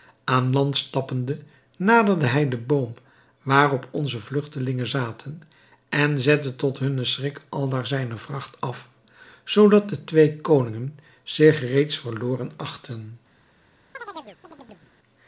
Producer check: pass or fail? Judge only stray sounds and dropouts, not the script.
fail